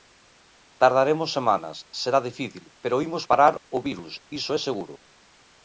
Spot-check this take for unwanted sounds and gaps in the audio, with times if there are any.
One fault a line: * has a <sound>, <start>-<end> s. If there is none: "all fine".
all fine